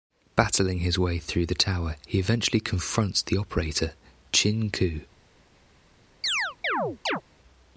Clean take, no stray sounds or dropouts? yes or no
no